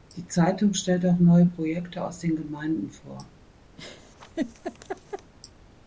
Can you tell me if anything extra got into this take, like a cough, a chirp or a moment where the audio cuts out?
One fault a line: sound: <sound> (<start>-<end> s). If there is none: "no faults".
sound: laugh (3.8-5.3 s)